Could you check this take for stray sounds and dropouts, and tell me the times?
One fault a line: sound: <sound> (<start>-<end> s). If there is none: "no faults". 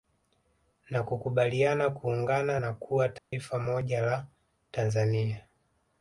sound: dropout (3.2-3.3 s)